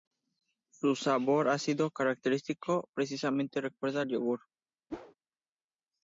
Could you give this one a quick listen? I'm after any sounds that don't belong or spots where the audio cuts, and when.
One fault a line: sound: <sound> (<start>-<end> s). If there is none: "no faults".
sound: whoosh (4.9-5.1 s)